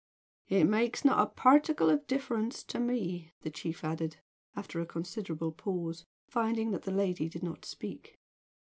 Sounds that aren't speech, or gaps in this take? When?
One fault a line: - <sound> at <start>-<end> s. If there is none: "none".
none